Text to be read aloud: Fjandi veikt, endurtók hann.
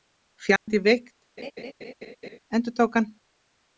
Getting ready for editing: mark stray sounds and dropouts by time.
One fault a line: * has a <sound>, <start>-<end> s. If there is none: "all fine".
* has a dropout, 0.6-0.7 s
* has a laugh, 1.4-2.4 s